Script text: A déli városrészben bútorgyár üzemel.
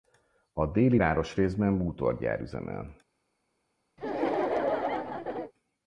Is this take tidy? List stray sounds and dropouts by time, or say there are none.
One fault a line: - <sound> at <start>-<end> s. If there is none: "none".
- laugh at 4.0-5.5 s